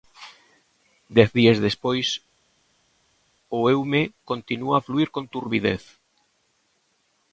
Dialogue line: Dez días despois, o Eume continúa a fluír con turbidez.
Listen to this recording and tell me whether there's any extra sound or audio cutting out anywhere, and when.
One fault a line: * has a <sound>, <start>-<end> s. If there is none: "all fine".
all fine